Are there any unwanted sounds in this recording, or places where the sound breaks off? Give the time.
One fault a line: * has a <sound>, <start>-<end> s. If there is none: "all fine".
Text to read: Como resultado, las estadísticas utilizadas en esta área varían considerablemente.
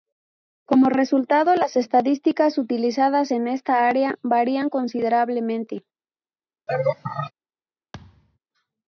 * has a laugh, 6.7-7.3 s
* has a thud, 7.9-8.4 s